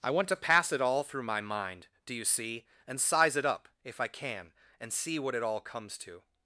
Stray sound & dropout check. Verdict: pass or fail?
pass